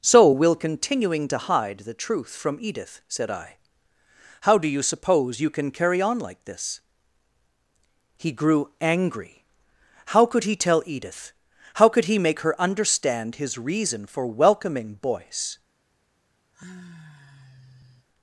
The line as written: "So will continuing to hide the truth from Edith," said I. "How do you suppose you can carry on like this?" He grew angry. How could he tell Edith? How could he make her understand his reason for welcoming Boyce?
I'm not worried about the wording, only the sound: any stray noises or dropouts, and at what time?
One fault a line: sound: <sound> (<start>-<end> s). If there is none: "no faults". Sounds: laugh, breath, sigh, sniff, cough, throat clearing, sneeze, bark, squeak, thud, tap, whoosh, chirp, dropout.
sound: sigh (16.5-18.1 s)